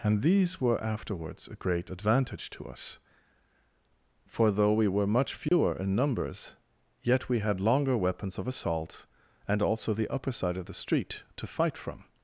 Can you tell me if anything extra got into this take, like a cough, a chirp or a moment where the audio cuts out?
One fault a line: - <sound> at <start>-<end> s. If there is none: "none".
- dropout at 5.5-5.5 s